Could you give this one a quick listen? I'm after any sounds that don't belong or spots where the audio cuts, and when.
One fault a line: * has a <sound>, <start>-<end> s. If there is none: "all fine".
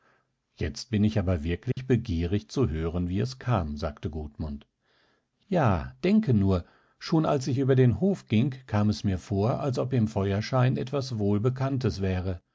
* has a dropout, 1.7-1.8 s